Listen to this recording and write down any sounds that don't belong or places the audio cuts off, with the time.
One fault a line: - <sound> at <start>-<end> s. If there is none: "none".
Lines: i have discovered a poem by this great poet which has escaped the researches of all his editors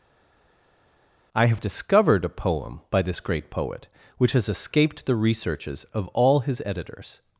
none